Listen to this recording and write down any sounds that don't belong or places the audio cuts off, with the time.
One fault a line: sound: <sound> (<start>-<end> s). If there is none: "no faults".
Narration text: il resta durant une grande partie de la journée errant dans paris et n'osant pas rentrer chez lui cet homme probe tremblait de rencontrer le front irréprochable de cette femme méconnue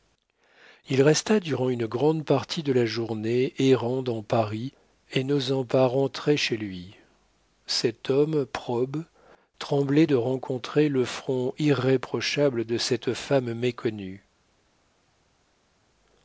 no faults